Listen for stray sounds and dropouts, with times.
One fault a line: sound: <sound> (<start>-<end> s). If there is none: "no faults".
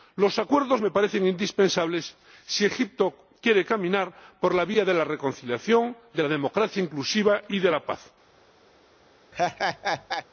sound: laugh (9.3-10.3 s)